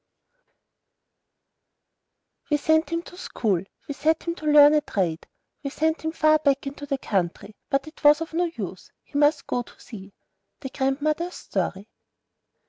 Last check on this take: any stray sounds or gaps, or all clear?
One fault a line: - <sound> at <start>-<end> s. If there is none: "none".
none